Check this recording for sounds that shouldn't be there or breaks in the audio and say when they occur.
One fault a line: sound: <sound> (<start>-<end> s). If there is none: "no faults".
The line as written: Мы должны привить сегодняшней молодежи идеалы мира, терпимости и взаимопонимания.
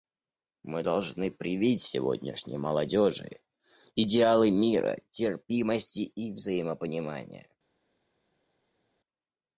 no faults